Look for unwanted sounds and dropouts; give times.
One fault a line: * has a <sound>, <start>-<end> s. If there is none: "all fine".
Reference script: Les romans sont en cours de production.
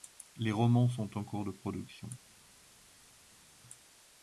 all fine